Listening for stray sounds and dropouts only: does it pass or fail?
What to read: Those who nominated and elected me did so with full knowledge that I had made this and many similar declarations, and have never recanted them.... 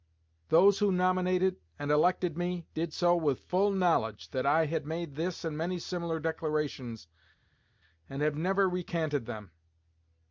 pass